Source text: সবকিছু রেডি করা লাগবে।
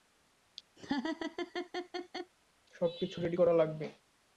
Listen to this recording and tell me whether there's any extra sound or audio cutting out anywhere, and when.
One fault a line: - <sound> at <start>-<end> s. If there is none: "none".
- laugh at 0.8-2.3 s